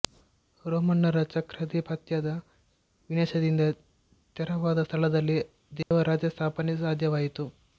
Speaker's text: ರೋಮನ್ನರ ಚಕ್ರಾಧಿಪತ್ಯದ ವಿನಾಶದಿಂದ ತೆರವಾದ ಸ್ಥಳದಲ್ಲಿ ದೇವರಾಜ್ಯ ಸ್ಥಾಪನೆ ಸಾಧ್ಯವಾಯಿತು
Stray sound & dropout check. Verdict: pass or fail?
fail